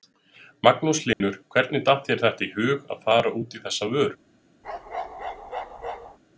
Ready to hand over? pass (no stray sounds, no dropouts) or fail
fail